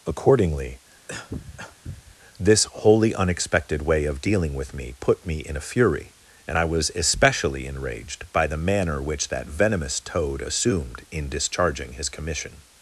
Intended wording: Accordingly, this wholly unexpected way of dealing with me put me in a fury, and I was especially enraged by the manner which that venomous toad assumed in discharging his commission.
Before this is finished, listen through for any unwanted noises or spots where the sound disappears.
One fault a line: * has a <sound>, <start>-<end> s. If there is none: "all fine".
* has a cough, 1.1-2.2 s